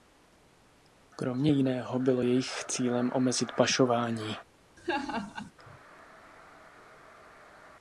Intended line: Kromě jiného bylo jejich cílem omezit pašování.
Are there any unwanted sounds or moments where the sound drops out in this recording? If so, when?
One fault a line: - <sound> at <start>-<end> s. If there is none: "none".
- laugh at 4.8-5.5 s